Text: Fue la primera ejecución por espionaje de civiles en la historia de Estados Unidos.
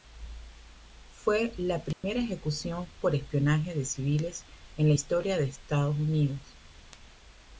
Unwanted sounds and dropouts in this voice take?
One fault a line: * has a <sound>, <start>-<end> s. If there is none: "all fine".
* has a dropout, 1.9-2.0 s